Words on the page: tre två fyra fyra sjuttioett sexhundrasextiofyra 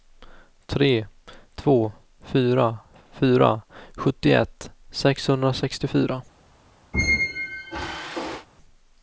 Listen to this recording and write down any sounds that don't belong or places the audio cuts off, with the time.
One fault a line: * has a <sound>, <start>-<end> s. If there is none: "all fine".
* has a squeak, 6.9-8.5 s